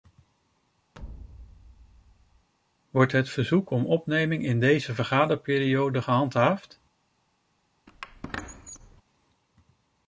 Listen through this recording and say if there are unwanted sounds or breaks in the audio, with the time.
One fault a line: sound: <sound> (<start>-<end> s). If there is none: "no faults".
sound: thud (0.9-2.5 s)
sound: squeak (7.9-9.0 s)